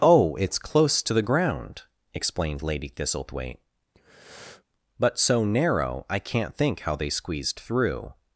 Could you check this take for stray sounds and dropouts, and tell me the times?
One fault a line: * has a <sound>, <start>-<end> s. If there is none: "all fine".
* has a breath, 3.9-4.6 s